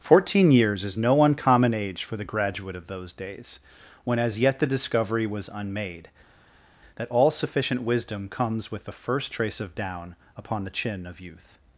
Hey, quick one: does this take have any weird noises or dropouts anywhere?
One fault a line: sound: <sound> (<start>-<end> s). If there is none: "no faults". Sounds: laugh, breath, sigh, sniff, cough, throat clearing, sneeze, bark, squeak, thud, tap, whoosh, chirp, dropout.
no faults